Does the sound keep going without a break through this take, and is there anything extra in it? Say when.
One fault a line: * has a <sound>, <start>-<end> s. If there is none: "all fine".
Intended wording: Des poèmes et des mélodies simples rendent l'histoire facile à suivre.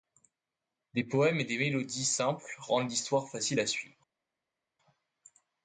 all fine